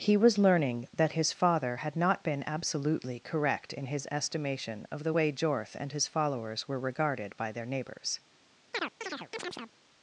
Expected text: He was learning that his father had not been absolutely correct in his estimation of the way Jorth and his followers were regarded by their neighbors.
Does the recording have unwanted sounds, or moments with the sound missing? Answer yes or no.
yes